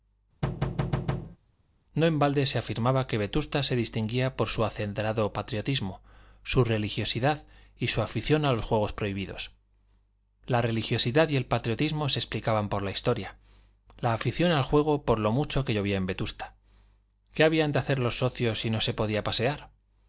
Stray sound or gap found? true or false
true